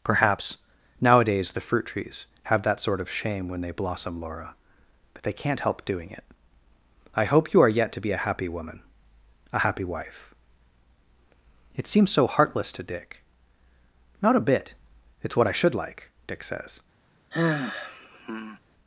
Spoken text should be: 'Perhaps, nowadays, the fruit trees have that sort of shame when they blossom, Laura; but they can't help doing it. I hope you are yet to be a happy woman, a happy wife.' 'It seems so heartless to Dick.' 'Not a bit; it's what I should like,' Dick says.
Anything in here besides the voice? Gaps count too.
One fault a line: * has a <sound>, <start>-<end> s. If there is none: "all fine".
* has a sigh, 17.3-18.6 s